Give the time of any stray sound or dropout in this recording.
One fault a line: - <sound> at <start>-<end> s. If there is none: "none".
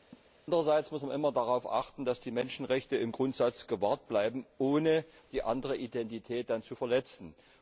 - laugh at 0.1-0.3 s